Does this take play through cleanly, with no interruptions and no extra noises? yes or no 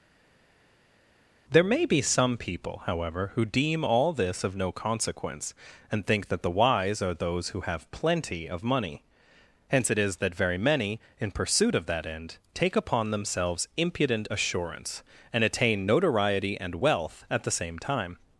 yes